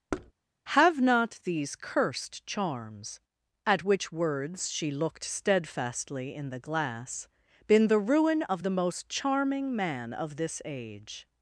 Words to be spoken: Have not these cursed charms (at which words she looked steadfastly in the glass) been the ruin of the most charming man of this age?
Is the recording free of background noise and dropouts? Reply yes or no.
no